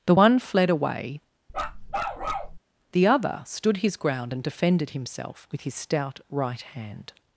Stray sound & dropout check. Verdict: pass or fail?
fail